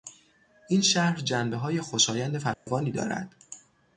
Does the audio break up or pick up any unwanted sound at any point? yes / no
yes